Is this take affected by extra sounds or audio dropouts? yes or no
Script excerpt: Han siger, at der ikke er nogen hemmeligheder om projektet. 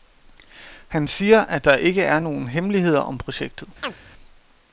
yes